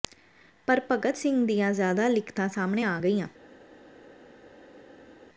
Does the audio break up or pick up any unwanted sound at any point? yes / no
no